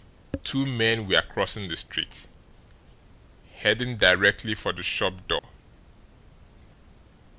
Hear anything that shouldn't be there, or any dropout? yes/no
yes